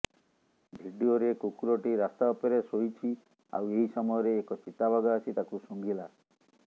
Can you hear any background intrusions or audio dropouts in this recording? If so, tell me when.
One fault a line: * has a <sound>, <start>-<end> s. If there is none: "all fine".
all fine